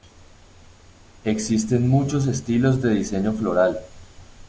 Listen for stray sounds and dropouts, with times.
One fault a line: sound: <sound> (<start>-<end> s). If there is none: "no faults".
no faults